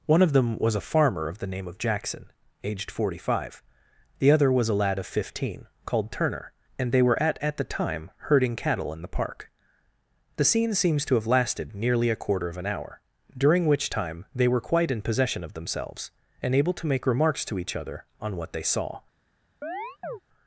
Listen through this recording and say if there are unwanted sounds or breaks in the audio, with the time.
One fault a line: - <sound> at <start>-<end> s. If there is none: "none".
- chirp at 19.6-20.2 s